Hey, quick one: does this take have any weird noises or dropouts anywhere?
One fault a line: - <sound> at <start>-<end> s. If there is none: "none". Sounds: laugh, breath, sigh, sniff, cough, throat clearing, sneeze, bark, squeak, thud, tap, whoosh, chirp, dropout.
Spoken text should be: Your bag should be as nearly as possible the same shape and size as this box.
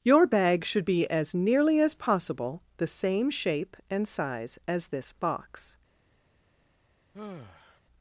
- sigh at 7.1-7.8 s